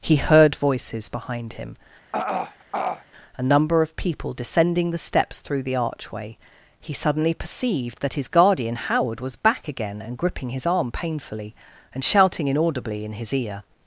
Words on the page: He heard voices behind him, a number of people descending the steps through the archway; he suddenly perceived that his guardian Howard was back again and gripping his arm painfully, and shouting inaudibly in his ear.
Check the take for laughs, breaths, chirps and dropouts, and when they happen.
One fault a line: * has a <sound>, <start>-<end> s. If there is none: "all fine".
* has a throat clearing, 2.1-3.0 s